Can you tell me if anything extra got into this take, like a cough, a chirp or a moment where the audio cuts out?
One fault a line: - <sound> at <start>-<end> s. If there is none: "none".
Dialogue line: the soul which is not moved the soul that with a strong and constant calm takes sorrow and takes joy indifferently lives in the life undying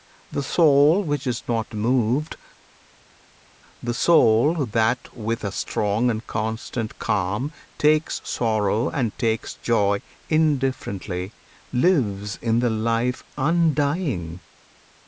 none